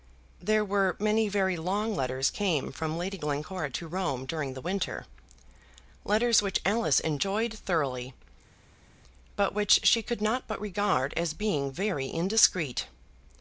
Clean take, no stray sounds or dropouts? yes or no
yes